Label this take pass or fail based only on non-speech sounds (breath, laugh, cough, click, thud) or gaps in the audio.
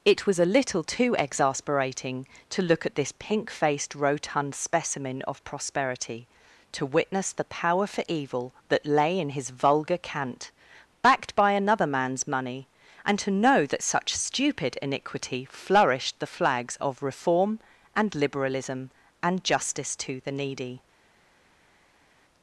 pass